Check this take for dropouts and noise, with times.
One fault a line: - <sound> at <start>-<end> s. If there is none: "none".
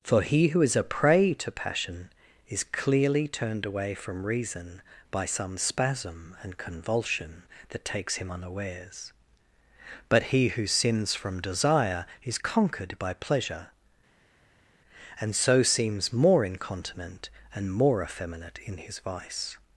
none